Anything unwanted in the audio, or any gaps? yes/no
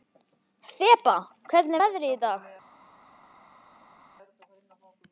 no